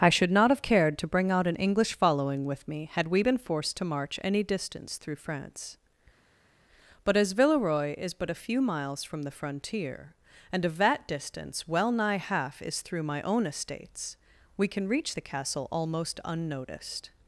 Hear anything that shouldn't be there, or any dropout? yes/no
no